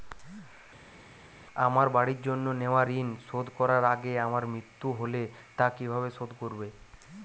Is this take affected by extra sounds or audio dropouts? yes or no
no